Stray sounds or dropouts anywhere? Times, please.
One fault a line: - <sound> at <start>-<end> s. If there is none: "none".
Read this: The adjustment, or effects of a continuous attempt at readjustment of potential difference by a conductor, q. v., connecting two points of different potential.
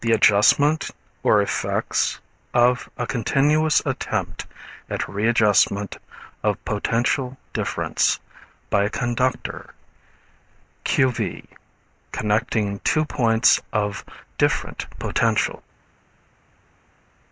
none